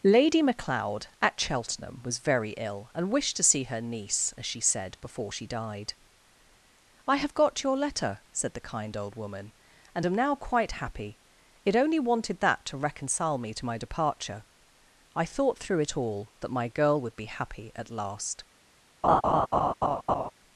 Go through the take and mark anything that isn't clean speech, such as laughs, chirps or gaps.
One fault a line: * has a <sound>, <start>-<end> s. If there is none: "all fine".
* has a laugh, 19.0-20.3 s